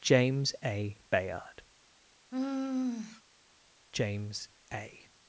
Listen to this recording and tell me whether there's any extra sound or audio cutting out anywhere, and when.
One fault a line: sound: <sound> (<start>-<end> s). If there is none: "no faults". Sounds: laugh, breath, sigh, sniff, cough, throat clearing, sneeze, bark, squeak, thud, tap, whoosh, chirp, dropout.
sound: sigh (2.3-3.2 s)